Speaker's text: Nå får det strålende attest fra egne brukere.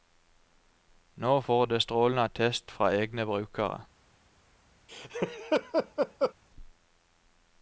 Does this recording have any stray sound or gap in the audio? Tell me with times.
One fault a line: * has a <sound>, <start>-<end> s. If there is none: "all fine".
* has a laugh, 4.9-6.3 s